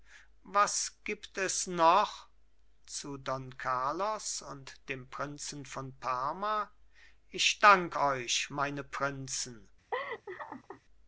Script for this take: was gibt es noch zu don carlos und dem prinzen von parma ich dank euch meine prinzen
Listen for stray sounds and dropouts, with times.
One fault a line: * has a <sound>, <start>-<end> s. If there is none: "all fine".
* has a laugh, 9.9-10.8 s